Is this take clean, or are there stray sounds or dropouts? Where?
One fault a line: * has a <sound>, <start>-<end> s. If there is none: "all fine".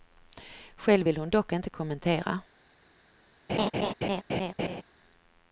* has a laugh, 3.5-4.8 s